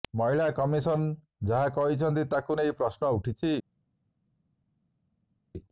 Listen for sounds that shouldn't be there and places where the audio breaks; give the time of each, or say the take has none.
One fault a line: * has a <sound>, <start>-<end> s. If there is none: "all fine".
all fine